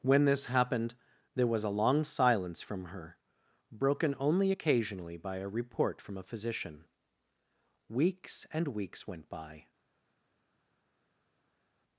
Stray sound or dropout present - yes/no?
no